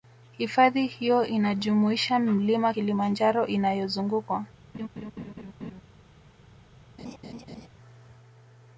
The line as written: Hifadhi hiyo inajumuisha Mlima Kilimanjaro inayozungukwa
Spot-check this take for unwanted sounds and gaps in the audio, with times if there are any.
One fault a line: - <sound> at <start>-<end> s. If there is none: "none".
- laugh at 4.7-5.8 s
- laugh at 7.0-7.7 s